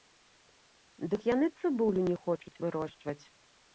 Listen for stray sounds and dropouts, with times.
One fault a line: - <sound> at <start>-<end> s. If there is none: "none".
none